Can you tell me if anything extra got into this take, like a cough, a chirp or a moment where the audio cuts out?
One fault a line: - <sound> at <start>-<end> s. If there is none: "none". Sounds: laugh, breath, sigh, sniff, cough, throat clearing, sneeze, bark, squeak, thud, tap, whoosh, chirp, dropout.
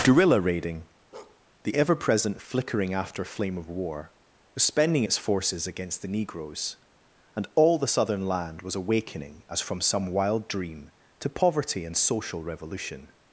- bark at 1.1-1.4 s